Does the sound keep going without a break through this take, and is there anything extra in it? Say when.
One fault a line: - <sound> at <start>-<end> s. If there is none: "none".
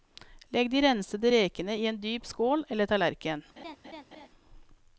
- laugh at 3.6-4.3 s